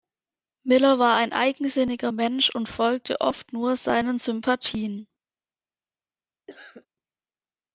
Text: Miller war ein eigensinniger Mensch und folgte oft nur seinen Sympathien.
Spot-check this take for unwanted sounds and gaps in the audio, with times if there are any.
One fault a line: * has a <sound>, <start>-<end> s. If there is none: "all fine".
* has a cough, 6.5-6.9 s